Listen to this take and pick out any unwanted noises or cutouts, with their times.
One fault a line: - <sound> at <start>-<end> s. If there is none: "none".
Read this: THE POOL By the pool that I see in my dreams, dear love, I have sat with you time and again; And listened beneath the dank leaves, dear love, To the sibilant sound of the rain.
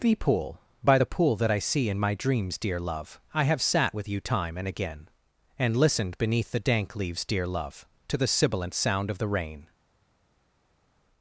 none